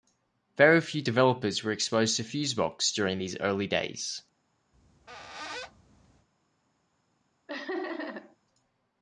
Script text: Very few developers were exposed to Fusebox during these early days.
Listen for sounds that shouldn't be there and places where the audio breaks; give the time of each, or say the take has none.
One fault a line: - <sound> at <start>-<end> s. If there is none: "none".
- squeak at 4.7-6.3 s
- laugh at 7.5-8.4 s